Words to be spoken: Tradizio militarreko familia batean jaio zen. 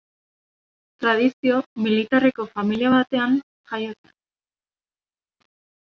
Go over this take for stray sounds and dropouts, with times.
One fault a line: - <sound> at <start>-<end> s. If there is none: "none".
none